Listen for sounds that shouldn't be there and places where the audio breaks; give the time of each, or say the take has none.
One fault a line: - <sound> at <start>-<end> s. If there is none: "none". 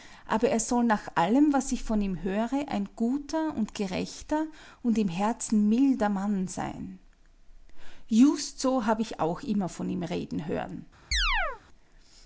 - chirp at 11.1-11.6 s